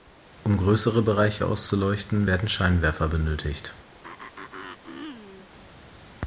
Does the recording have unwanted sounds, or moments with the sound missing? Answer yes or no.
yes